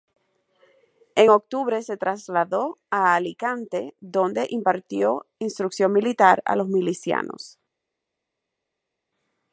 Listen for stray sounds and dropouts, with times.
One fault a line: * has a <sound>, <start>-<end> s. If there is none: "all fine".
all fine